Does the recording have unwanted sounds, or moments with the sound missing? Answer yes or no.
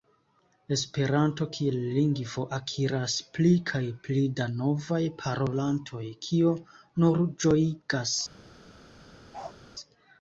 yes